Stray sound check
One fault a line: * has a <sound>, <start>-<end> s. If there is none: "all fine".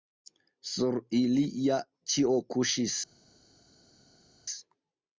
all fine